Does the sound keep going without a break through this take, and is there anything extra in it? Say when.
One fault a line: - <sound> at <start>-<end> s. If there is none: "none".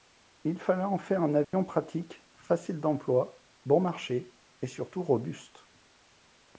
- dropout at 1.4-1.5 s